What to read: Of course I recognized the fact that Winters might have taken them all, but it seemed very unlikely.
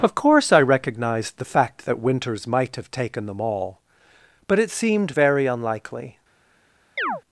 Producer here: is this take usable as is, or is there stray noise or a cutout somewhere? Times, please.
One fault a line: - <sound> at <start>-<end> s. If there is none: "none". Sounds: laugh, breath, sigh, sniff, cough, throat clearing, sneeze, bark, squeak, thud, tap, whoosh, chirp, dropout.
- chirp at 7.0-7.2 s